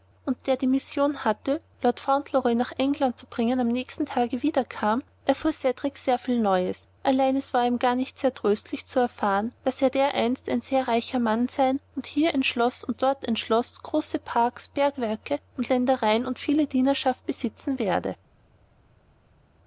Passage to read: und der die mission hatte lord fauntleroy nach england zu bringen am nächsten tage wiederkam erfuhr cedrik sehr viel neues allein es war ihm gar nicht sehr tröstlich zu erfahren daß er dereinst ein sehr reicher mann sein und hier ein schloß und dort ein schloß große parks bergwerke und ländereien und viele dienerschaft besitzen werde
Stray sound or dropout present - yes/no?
no